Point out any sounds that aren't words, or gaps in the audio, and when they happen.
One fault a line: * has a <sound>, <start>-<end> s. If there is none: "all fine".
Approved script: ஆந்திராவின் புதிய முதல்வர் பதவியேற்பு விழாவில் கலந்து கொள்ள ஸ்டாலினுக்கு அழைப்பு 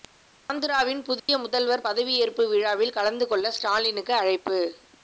* has a dropout, 1.2-1.3 s